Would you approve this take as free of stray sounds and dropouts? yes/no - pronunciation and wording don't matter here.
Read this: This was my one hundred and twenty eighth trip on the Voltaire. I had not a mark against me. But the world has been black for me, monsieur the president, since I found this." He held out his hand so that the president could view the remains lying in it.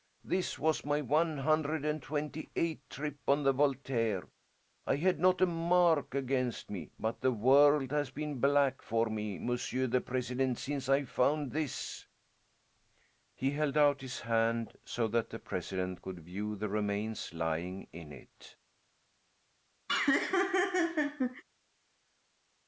no